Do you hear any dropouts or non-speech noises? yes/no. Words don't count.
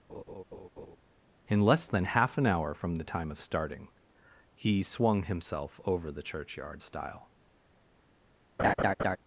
yes